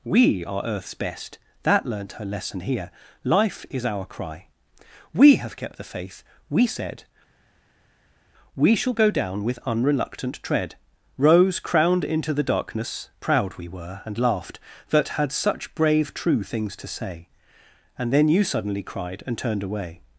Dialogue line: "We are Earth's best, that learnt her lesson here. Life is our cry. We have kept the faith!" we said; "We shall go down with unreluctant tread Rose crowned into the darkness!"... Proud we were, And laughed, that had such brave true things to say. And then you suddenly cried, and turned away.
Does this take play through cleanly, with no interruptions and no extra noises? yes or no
yes